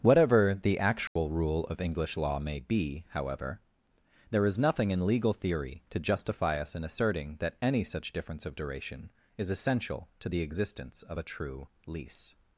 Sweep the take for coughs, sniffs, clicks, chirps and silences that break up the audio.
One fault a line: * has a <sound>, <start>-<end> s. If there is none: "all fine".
* has a dropout, 1.1-1.2 s